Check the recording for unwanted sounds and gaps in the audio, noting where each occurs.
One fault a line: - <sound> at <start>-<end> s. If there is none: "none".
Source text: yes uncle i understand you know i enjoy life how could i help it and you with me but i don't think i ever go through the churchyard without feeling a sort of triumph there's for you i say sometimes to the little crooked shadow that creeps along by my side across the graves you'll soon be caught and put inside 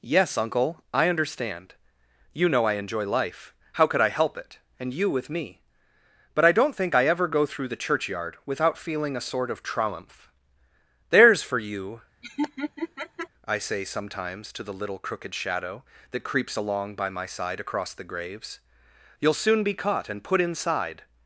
- laugh at 12.2-13.3 s